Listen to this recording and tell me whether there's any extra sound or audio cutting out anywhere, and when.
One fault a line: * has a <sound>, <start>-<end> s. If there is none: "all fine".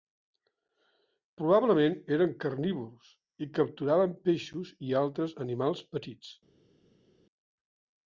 all fine